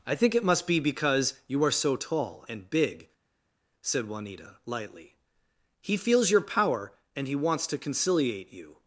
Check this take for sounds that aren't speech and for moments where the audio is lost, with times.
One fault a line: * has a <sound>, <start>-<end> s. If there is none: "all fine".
all fine